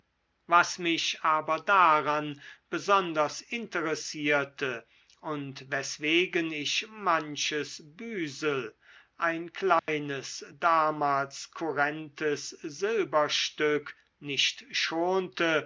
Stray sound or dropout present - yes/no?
yes